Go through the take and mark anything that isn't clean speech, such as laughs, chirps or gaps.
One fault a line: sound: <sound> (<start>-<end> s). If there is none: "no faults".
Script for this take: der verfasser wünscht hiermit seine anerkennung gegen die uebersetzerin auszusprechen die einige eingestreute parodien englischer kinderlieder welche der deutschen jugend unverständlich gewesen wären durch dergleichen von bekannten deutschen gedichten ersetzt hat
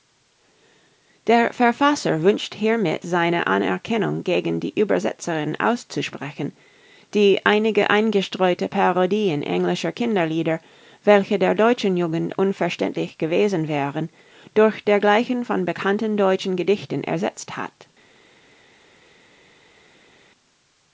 no faults